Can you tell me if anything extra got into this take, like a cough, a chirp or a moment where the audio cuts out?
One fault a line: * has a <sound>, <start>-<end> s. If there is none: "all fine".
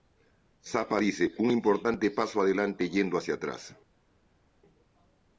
all fine